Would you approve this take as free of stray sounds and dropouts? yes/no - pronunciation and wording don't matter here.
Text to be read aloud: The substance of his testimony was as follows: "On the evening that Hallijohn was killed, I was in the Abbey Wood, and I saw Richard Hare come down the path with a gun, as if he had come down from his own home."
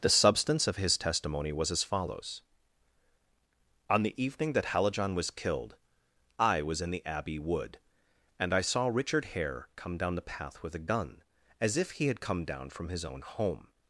yes